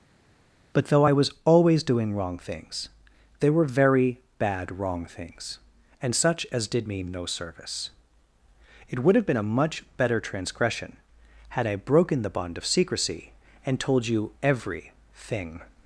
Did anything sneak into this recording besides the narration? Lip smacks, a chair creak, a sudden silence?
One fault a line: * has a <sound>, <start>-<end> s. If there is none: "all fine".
all fine